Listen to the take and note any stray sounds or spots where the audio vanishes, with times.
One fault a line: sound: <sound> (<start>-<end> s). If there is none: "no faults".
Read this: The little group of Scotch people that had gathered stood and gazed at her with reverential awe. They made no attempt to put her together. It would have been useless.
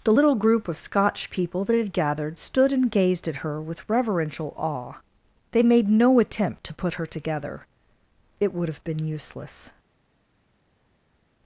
no faults